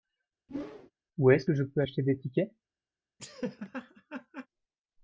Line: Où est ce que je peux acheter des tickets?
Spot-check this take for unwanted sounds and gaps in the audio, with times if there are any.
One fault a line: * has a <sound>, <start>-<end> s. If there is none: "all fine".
* has a whoosh, 0.5-0.9 s
* has a laugh, 3.2-4.5 s